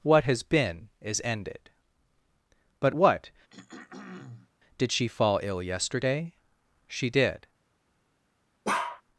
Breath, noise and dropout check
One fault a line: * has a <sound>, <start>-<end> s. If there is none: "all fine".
* has a throat clearing, 3.5-4.5 s
* has a bark, 8.6-9.0 s